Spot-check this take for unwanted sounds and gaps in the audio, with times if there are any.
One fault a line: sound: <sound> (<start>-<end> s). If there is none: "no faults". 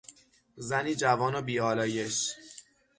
no faults